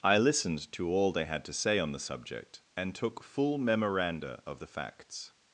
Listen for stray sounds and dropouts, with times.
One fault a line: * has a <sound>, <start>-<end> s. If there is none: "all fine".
all fine